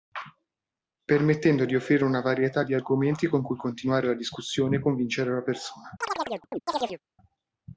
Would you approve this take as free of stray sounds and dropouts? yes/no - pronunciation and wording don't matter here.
no